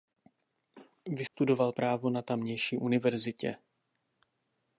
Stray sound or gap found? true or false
true